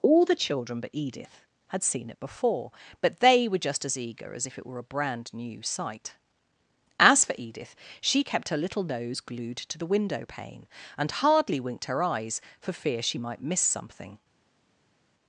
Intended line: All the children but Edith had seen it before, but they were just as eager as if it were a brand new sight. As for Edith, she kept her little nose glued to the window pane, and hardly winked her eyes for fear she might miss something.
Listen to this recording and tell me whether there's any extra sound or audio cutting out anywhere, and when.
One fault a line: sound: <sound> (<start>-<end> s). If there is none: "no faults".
no faults